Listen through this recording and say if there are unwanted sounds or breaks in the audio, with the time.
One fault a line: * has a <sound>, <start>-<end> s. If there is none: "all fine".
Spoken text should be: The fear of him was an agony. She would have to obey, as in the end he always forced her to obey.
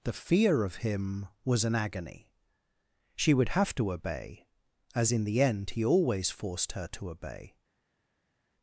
all fine